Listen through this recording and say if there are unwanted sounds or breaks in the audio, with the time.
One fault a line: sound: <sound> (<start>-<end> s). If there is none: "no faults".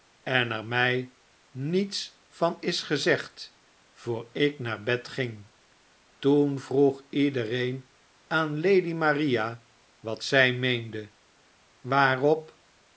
no faults